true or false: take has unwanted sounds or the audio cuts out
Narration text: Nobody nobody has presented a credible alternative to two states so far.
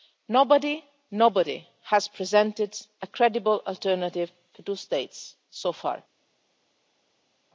false